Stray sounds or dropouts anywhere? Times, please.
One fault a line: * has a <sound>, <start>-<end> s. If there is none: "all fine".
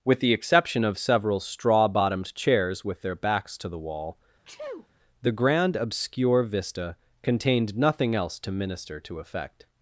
* has a sneeze, 4.4-4.9 s